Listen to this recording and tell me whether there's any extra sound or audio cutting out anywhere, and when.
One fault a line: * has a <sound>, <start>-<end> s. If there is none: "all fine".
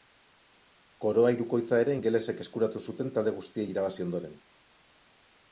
all fine